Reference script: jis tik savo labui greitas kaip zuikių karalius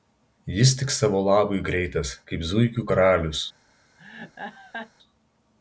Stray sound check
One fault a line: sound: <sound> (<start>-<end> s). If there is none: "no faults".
sound: laugh (4.0-4.9 s)